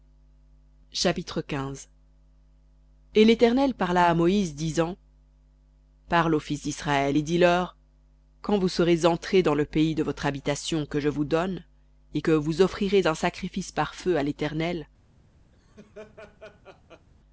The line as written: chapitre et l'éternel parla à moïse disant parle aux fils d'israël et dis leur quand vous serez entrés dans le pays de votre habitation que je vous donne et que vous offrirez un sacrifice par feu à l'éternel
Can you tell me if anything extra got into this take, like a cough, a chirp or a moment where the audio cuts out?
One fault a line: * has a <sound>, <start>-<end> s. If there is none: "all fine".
* has a laugh, 15.5-17.1 s